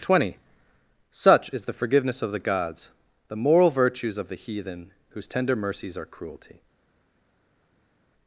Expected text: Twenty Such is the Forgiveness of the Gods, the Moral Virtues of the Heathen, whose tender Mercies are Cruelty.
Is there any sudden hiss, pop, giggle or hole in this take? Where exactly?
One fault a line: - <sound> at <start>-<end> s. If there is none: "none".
none